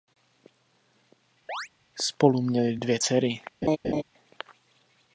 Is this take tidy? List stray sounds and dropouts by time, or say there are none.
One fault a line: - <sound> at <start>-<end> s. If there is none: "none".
- chirp at 1.5-1.7 s
- laugh at 3.6-4.0 s